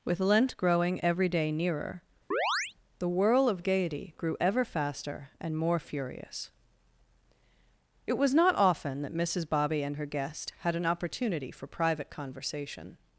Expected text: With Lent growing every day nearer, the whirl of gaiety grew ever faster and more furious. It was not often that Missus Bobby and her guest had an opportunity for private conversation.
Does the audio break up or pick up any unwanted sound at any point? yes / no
yes